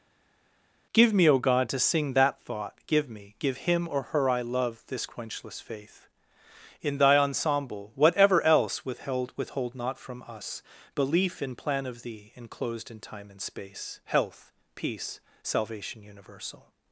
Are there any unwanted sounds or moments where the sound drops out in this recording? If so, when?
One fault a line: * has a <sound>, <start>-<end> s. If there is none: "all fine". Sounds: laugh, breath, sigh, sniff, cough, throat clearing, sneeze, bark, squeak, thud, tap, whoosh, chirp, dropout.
all fine